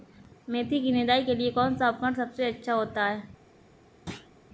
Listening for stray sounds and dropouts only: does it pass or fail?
fail